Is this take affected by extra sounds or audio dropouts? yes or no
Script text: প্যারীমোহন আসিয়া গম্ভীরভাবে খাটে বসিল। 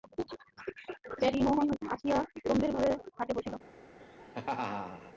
yes